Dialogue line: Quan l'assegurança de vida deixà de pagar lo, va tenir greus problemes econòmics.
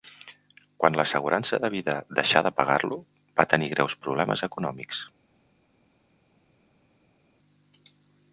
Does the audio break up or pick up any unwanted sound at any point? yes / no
no